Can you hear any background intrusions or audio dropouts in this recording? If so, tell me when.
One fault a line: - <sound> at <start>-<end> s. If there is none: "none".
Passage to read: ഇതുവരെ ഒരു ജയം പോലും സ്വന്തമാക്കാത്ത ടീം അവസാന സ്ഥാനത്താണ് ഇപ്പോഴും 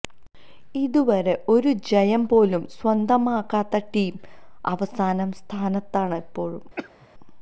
- cough at 6.8-7.1 s